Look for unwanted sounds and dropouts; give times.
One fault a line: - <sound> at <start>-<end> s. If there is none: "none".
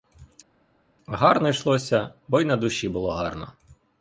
none